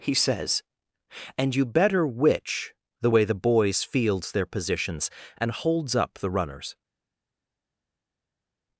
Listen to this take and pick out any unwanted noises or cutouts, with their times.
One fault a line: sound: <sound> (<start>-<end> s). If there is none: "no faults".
no faults